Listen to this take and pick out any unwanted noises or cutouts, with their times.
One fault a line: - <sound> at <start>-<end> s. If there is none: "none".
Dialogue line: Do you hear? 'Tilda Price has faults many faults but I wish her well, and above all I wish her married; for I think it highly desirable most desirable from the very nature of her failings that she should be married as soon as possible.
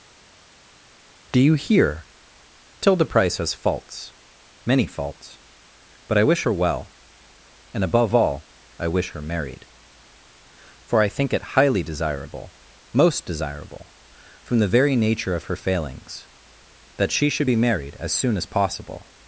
none